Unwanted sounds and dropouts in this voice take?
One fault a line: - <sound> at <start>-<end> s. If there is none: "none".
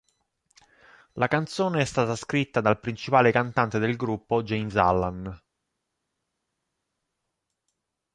none